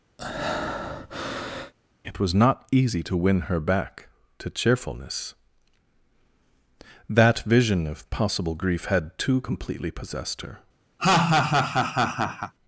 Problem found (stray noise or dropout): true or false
true